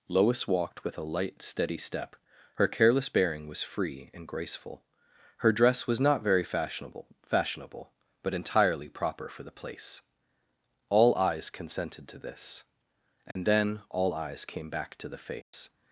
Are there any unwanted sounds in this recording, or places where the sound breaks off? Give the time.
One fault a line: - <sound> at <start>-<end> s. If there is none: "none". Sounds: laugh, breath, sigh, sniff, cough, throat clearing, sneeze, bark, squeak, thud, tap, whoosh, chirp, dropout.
- dropout at 13.3-13.4 s
- dropout at 15.4-15.5 s